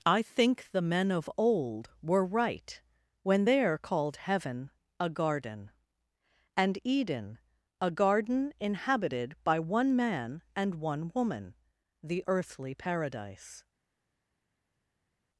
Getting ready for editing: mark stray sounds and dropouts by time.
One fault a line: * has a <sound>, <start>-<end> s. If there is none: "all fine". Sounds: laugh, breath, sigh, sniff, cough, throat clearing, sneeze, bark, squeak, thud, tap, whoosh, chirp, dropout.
all fine